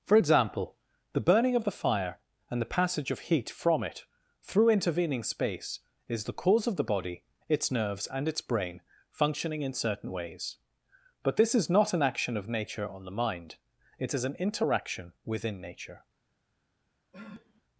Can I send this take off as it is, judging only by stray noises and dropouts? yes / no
no